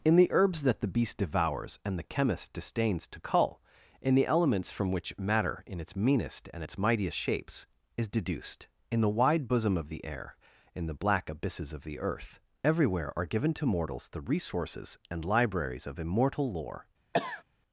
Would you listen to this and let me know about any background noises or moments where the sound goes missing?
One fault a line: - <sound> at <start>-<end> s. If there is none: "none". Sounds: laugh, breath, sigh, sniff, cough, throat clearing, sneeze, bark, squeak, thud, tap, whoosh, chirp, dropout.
- cough at 17.1-17.4 s